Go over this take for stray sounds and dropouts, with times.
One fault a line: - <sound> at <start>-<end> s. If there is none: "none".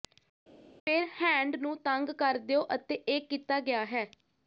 none